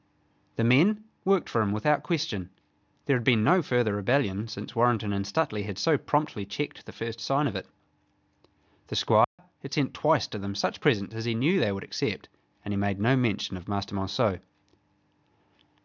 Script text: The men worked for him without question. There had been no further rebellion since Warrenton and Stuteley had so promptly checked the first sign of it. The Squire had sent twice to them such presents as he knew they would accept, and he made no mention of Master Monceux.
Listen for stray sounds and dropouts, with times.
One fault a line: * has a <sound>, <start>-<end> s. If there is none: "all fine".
* has a dropout, 9.2-9.4 s